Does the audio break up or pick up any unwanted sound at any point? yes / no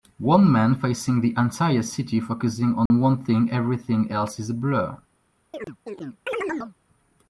yes